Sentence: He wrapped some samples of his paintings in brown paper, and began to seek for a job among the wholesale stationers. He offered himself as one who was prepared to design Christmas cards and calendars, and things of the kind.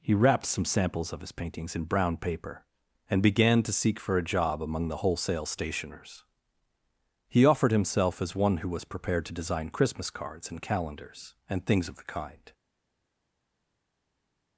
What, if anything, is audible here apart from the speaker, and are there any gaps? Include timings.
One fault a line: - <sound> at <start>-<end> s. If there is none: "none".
none